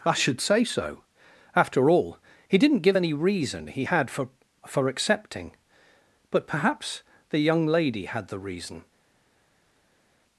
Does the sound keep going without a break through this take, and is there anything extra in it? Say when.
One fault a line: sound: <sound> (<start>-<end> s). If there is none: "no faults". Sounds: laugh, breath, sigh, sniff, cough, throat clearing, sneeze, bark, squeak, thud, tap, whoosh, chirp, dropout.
no faults